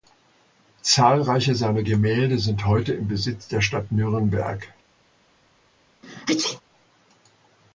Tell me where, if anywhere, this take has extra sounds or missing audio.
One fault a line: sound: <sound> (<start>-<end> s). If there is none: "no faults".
sound: sneeze (6.0-6.6 s)